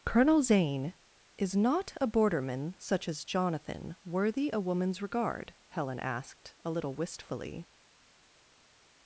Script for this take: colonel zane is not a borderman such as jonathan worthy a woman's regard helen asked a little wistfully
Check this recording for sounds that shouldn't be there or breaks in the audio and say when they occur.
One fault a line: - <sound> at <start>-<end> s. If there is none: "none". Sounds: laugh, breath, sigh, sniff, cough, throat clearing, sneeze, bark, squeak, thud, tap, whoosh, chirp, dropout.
none